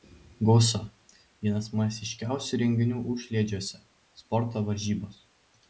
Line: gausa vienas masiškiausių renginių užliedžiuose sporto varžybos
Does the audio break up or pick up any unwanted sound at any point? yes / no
no